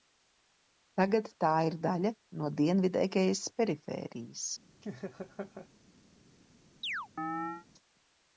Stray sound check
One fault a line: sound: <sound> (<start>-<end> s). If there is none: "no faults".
sound: laugh (4.8-5.7 s)
sound: chirp (6.8-7.7 s)